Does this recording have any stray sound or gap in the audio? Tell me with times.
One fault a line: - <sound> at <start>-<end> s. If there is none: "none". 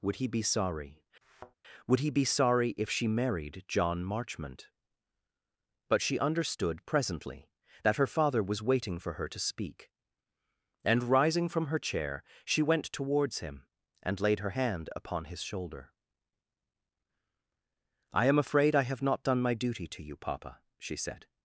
- thud at 1.2-1.5 s